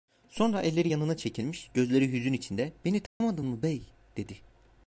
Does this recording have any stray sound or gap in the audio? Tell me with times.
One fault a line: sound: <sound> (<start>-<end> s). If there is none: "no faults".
sound: dropout (3.1-3.2 s)